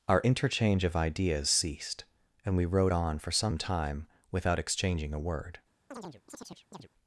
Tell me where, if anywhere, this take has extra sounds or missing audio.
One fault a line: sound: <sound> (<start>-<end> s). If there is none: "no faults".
sound: chirp (5.9-6.9 s)